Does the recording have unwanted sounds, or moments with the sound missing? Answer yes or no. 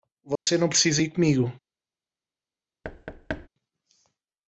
yes